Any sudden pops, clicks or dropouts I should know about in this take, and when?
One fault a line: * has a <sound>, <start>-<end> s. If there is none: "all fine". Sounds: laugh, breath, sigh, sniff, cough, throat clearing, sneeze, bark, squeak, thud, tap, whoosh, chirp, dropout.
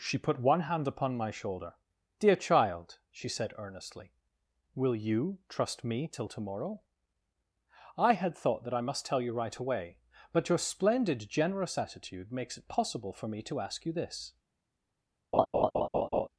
* has a laugh, 15.3-16.3 s